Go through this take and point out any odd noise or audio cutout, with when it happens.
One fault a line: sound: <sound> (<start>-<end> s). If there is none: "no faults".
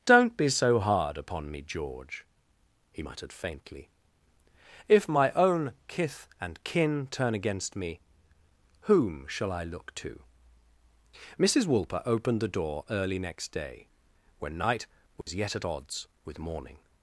sound: dropout (15.2-15.3 s)